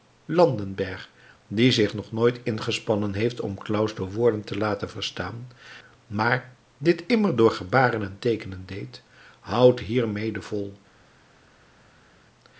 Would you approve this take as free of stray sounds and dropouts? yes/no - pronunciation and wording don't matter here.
yes